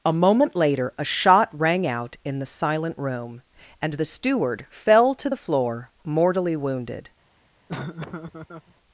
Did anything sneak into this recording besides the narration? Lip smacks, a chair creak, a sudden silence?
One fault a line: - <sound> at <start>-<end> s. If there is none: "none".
- laugh at 7.7-8.7 s